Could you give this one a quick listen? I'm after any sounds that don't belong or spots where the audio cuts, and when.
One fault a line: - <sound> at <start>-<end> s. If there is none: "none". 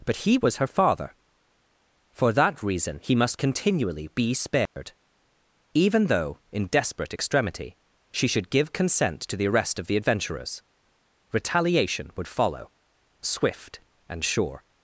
- dropout at 4.7-4.8 s